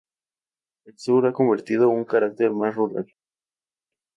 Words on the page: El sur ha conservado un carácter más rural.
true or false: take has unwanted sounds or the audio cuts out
false